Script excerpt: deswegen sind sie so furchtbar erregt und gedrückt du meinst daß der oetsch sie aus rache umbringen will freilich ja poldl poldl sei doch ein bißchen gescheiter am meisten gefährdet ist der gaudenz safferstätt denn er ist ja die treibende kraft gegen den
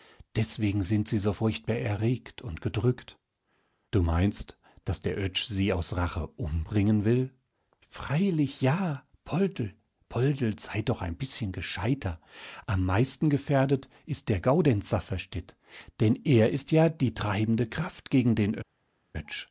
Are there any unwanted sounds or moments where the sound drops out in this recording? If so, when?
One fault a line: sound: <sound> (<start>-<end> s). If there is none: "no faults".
no faults